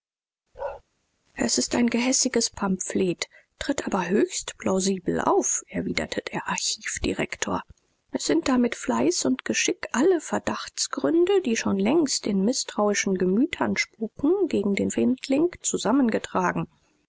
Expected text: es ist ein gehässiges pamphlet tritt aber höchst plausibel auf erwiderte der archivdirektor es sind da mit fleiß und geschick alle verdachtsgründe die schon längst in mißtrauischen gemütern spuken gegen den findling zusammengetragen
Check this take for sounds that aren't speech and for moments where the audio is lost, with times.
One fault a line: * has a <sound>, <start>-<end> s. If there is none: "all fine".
* has a bark, 0.5-0.8 s